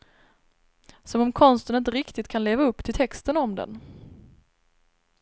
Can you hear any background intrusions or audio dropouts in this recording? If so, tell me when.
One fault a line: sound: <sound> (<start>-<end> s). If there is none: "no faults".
no faults